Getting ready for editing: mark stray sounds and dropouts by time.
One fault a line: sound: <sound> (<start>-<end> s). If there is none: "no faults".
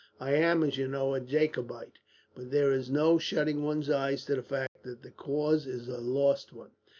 sound: dropout (4.7-4.8 s)